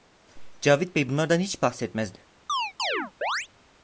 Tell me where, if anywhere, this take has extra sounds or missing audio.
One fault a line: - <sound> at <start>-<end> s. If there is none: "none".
- chirp at 2.5-3.5 s